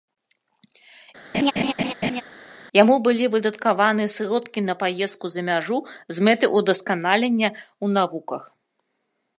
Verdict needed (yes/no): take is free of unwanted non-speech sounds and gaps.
no